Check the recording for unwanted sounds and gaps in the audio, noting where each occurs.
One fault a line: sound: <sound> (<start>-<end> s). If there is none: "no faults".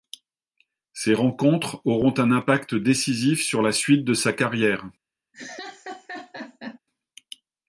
sound: laugh (5.3-6.8 s)